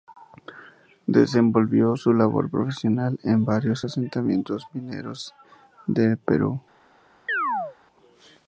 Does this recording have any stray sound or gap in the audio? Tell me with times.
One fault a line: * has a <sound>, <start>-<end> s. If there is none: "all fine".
* has a chirp, 7.3-7.8 s